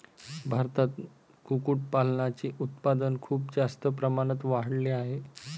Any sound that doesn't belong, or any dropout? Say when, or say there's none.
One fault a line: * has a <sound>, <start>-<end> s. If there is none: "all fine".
all fine